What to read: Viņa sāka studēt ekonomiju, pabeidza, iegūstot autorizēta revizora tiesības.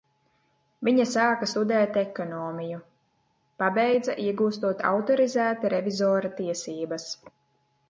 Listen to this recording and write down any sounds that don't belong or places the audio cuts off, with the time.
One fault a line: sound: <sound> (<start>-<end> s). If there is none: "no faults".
no faults